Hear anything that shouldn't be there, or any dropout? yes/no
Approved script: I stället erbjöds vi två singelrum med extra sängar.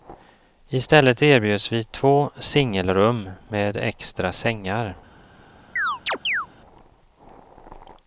yes